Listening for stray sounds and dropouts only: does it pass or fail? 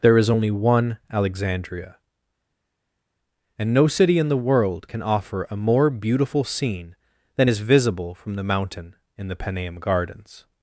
pass